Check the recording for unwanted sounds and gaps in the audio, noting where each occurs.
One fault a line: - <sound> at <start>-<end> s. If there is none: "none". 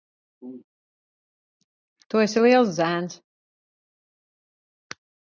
none